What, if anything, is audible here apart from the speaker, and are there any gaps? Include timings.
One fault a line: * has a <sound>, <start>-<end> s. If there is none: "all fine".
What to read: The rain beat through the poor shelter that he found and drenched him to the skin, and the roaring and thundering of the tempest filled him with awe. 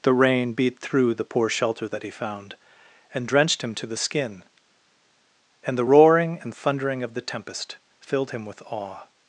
all fine